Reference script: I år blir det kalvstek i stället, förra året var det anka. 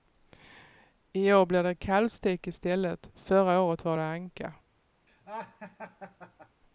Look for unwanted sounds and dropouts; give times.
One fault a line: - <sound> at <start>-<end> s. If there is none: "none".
- laugh at 5.1-6.6 s